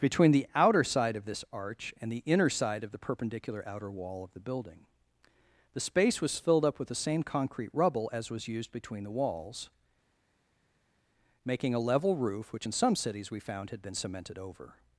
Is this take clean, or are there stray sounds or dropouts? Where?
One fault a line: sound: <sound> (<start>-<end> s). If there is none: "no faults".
no faults